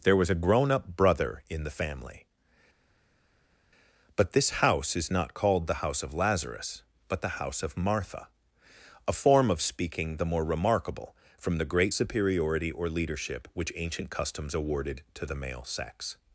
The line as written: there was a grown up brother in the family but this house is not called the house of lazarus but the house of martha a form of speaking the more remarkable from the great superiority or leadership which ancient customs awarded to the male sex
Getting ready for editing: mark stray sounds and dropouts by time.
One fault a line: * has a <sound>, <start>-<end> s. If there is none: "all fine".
all fine